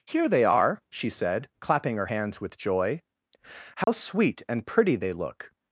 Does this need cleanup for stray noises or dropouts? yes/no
yes